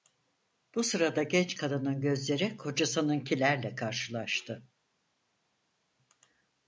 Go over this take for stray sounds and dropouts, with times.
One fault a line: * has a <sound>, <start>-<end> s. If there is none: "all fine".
all fine